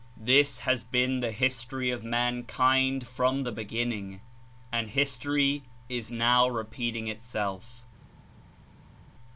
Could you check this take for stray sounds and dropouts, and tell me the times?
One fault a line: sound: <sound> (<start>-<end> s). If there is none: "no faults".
no faults